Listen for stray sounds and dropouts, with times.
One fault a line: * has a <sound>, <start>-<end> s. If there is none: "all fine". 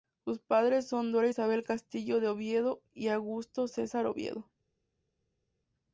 all fine